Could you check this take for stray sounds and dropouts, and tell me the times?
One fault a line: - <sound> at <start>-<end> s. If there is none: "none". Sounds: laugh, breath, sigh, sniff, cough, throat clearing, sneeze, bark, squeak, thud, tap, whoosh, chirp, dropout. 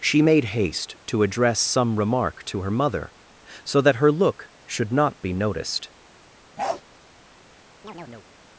- bark at 6.6-6.8 s
- chirp at 7.8-8.3 s